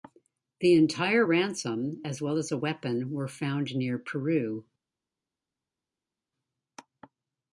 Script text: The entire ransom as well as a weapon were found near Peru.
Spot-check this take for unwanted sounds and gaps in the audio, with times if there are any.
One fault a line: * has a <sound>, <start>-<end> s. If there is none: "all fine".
all fine